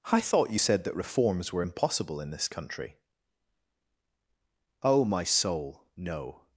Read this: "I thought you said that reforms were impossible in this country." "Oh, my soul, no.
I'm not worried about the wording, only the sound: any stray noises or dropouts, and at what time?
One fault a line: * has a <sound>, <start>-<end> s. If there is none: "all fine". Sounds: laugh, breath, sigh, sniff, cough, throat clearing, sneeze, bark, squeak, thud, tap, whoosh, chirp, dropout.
all fine